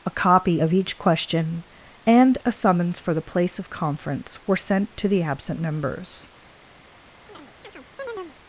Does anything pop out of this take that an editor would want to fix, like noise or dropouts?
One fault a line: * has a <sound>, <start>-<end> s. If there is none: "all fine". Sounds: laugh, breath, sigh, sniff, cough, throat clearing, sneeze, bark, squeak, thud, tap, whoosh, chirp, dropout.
* has a chirp, 7.3-8.4 s